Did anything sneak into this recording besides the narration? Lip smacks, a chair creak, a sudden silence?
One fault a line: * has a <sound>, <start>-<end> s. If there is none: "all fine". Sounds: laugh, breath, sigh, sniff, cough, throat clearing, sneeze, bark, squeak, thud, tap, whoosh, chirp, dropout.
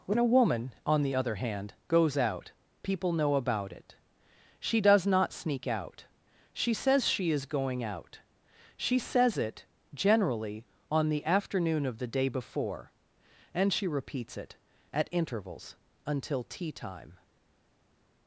all fine